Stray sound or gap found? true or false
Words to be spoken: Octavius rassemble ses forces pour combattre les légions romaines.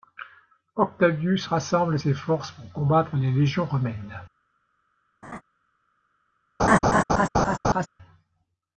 true